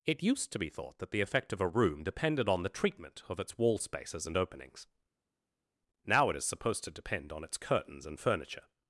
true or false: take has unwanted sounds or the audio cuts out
false